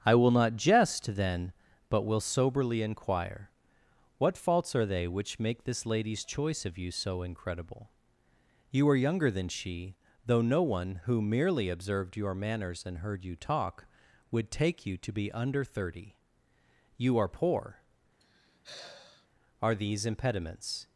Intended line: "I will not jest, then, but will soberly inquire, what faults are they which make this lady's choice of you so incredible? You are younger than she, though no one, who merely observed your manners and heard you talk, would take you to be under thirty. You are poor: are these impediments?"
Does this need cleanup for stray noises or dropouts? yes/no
yes